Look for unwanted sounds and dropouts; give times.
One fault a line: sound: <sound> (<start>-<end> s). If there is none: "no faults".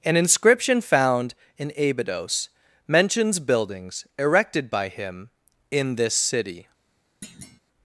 sound: thud (7.2-7.6 s)